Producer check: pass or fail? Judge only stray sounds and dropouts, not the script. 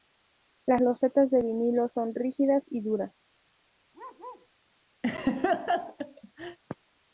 fail